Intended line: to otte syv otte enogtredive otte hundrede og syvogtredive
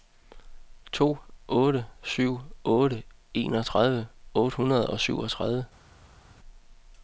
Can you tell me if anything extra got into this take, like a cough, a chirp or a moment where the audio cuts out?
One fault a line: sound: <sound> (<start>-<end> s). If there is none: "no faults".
no faults